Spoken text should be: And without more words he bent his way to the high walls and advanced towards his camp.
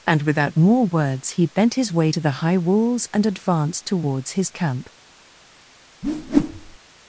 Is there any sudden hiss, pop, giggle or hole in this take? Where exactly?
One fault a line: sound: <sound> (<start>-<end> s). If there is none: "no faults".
sound: whoosh (6.0-6.8 s)